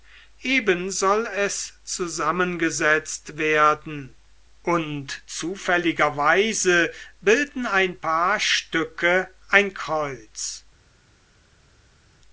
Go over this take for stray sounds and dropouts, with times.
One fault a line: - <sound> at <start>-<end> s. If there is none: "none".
none